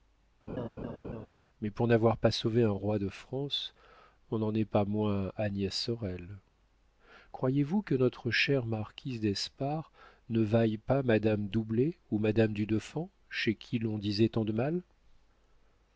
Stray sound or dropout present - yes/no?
yes